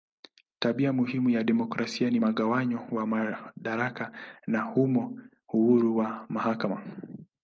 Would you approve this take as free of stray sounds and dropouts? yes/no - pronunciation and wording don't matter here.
yes